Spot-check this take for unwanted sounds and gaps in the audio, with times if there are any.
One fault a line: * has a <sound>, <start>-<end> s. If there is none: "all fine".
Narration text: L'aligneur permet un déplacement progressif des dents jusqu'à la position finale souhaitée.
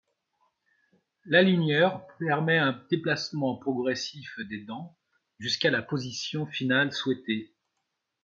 all fine